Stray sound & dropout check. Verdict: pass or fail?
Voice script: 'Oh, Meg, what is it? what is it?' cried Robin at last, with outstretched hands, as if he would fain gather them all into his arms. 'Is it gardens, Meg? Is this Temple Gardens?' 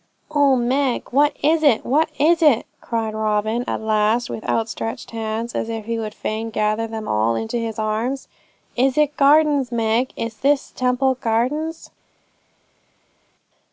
pass